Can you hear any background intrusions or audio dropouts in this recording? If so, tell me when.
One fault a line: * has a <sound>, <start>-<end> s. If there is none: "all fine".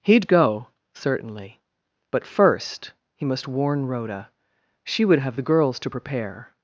all fine